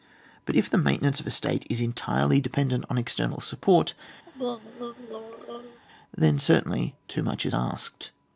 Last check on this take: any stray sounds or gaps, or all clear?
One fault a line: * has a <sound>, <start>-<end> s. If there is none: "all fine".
* has a throat clearing, 4.3-5.8 s